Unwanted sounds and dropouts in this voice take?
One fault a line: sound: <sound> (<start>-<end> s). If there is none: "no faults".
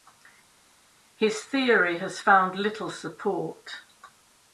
no faults